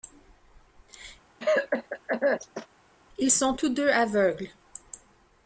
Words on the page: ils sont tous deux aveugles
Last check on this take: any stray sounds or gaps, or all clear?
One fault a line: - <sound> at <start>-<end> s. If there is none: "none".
- cough at 1.4-2.7 s